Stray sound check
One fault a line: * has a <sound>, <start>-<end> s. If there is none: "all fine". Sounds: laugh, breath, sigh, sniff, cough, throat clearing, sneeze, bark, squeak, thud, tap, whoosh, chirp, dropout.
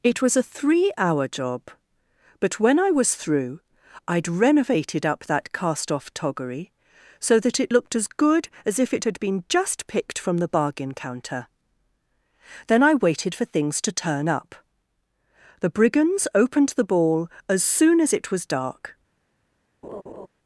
* has a laugh, 19.8-20.3 s